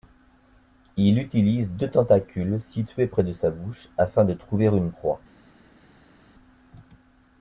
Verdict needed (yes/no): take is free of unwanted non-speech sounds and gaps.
yes